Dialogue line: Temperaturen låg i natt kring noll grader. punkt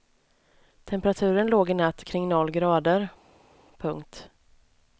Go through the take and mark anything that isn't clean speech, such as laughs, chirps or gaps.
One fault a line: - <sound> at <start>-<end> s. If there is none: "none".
none